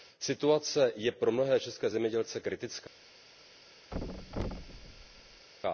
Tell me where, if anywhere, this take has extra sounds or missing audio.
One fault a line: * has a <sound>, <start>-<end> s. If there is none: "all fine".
* has a thud, 3.9-5.5 s